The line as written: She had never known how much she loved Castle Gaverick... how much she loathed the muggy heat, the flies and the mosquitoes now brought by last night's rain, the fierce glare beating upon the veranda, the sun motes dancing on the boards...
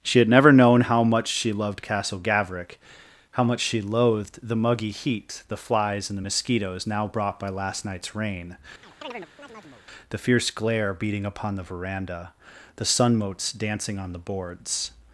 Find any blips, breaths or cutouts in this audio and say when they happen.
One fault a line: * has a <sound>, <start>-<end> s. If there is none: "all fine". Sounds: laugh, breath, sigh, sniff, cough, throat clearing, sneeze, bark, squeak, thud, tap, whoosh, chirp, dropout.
* has a chirp, 8.8-9.8 s